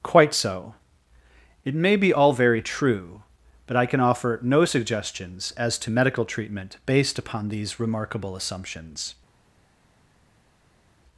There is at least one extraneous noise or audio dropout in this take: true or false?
false